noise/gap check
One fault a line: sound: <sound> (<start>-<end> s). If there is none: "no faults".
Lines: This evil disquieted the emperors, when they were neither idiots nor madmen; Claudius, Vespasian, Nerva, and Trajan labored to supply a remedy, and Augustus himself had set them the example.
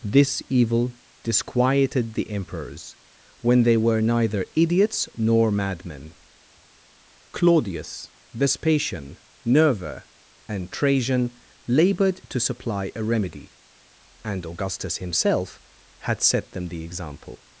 no faults